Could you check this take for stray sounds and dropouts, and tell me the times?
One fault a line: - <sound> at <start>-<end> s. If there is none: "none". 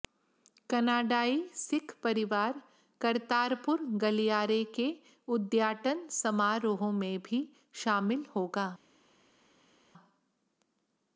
none